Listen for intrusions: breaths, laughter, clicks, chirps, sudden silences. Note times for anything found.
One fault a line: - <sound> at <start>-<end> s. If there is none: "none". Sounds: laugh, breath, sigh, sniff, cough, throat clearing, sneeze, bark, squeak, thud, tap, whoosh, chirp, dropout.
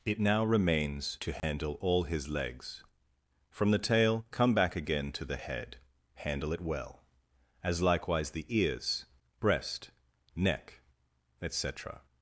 - dropout at 1.4-1.4 s